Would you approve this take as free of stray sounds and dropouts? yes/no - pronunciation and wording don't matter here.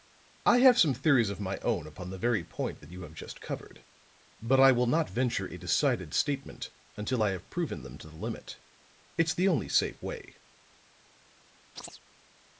no